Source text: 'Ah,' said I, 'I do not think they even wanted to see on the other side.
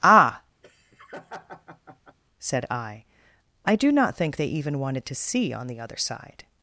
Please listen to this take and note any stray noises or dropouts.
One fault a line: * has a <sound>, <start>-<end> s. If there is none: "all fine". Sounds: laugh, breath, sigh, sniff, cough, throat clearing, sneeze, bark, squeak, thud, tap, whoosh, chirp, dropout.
* has a laugh, 0.6-2.2 s